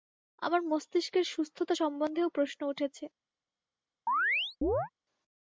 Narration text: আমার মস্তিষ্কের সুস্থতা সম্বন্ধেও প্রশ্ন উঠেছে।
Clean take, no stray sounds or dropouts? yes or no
no